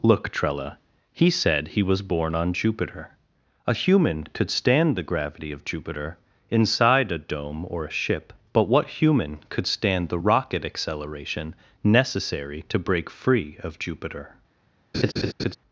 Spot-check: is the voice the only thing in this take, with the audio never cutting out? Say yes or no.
no